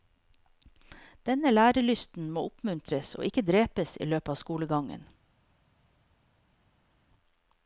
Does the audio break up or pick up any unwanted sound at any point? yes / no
no